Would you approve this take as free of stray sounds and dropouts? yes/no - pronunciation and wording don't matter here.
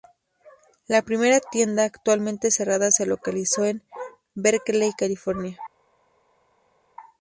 yes